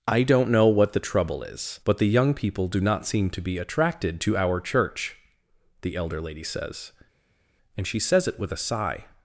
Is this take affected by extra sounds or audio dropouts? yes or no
no